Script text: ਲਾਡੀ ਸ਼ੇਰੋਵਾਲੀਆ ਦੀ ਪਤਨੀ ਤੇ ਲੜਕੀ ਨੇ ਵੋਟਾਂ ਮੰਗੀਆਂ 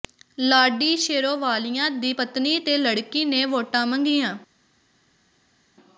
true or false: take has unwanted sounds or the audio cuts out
false